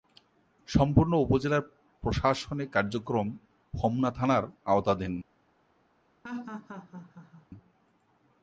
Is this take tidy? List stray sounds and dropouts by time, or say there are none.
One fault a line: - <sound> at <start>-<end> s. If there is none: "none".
- laugh at 6.2-7.5 s